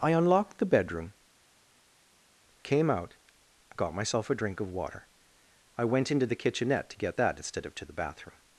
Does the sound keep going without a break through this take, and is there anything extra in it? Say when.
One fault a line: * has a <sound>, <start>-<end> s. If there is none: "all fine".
all fine